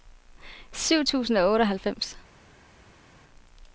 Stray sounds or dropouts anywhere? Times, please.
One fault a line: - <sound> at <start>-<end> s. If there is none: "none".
none